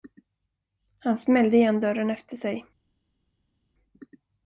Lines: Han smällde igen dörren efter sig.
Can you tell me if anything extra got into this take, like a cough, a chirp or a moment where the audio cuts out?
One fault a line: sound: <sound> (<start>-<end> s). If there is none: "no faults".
no faults